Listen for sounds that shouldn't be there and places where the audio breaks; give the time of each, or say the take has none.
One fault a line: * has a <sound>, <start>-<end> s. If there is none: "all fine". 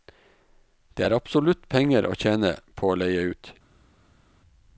all fine